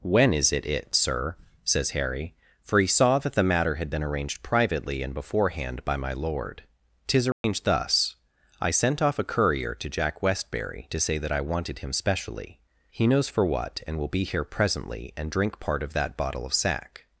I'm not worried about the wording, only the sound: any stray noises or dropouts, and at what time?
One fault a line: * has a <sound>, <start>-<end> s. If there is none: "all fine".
* has a dropout, 7.3-7.4 s